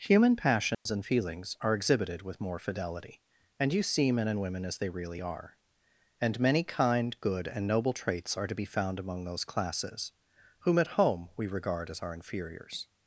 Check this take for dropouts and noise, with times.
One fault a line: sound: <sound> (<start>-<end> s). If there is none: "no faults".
sound: dropout (0.7-0.9 s)